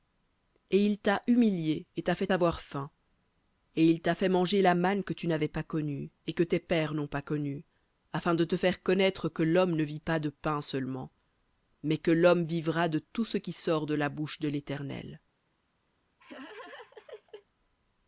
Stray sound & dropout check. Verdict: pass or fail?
fail